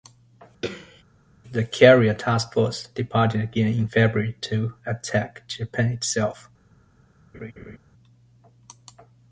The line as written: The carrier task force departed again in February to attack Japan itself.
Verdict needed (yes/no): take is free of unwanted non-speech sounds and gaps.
no